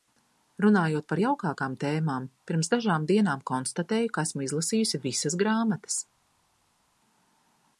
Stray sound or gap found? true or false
false